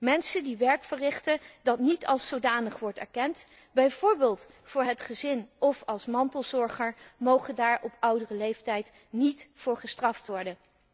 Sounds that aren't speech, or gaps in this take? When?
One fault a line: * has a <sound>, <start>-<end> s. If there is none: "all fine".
all fine